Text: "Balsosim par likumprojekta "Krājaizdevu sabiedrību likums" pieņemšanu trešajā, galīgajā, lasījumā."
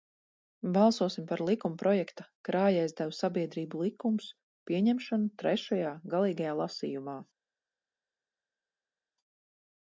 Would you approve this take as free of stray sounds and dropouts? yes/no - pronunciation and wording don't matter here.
yes